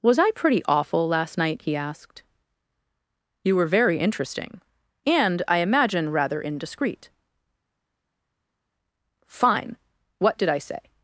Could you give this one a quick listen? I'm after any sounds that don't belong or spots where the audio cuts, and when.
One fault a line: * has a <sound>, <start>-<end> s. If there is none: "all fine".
all fine